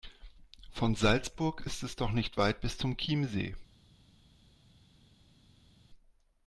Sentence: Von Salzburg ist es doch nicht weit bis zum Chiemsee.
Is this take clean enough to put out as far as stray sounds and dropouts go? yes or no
yes